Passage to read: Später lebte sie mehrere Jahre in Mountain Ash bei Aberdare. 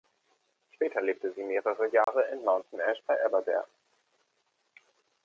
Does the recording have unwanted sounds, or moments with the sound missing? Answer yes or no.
yes